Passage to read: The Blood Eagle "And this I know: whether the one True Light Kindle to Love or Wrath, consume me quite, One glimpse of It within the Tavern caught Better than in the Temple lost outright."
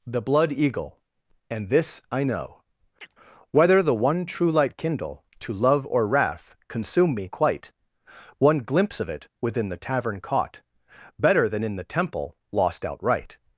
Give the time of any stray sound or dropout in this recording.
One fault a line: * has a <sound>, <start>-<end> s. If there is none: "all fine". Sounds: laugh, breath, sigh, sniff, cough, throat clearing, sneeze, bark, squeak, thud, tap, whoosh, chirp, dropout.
* has a chirp, 3.0-3.1 s